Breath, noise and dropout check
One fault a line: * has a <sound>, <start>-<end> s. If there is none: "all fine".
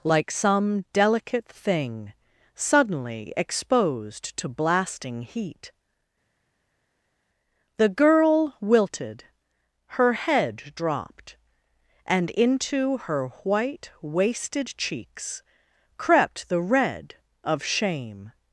all fine